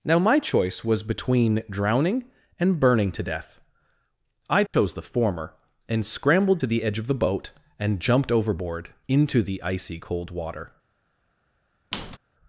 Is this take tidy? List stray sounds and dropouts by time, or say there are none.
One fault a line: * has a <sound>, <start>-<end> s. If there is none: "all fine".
* has a dropout, 4.7-4.7 s
* has a squeak, 11.9-12.2 s